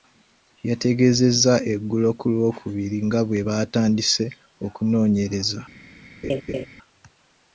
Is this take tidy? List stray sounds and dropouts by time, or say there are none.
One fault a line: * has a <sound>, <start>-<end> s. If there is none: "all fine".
* has a laugh, 6.2-6.7 s